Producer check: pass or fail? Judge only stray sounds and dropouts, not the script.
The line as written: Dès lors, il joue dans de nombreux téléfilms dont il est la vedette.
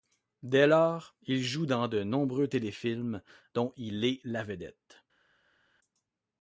pass